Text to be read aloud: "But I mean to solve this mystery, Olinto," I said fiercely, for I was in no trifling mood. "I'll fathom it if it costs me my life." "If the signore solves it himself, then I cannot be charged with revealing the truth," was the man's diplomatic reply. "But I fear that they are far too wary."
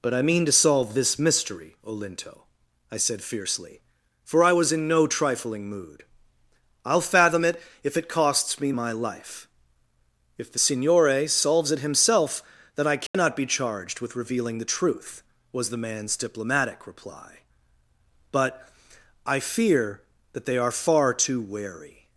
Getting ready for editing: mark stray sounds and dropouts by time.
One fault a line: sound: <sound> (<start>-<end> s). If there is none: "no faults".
sound: dropout (13.1-13.1 s)